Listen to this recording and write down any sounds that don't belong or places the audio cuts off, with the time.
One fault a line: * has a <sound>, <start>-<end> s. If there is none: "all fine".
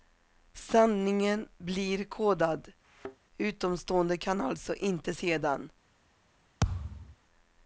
* has a thud, 2.8-3.2 s
* has a thud, 6.6-7.2 s